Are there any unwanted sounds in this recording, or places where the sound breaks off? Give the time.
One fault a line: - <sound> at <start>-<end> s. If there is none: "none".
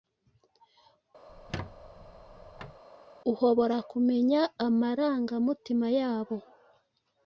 - squeak at 1.3-2.8 s